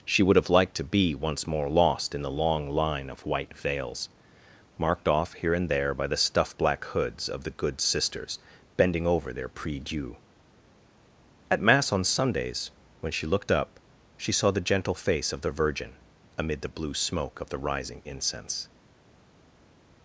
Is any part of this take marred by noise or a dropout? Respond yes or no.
no